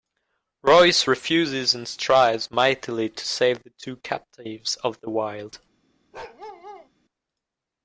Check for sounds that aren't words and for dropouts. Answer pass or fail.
fail